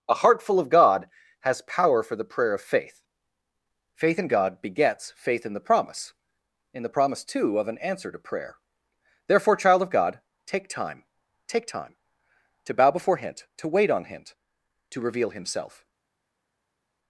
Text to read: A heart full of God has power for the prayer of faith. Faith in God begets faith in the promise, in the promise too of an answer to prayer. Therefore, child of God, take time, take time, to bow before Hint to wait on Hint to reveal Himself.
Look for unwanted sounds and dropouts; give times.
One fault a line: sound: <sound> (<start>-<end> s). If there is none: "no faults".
no faults